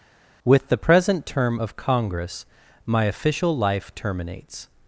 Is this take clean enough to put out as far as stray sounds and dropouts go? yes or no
yes